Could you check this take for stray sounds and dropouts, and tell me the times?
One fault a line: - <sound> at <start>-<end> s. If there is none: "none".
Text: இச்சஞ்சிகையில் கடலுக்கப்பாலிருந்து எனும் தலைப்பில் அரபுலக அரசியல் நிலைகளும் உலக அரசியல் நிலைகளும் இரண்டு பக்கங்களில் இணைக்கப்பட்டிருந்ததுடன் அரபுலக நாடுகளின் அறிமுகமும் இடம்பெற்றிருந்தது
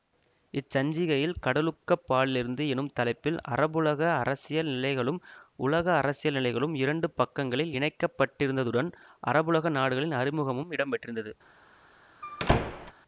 - squeak at 12.2-12.9 s